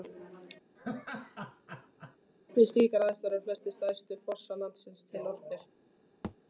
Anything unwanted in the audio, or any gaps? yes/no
yes